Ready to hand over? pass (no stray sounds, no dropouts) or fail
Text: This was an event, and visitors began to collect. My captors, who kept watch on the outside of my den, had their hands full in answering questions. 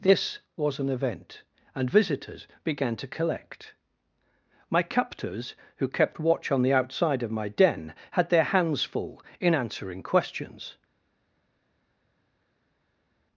pass